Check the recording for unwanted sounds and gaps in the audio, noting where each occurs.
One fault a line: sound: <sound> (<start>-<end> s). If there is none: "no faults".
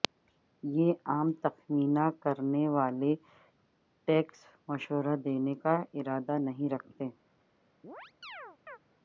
sound: chirp (7.8-8.8 s)